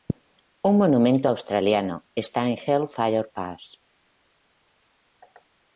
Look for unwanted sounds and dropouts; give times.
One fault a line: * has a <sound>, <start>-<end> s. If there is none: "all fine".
all fine